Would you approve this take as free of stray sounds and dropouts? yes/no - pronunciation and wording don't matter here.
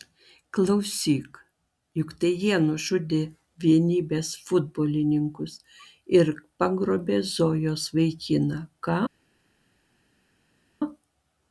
yes